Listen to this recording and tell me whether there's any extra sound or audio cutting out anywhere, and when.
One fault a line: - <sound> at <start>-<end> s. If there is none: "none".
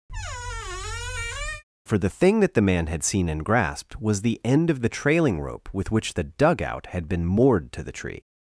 - squeak at 0.1-1.6 s